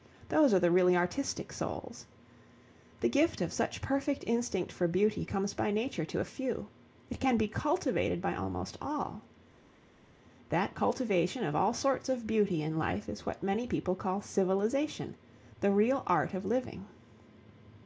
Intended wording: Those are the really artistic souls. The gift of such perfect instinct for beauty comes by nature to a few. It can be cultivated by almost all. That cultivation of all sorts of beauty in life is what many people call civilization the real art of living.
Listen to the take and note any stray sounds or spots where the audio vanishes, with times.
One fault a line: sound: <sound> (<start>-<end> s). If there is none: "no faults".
no faults